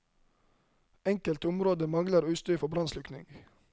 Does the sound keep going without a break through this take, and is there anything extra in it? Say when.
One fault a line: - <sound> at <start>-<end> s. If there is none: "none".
none